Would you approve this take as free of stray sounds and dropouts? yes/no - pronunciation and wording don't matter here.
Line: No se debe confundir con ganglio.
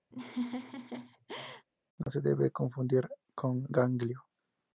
no